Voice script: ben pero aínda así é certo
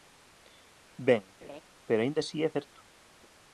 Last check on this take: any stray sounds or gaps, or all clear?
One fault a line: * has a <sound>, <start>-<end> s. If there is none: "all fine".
* has a laugh, 1.4-1.6 s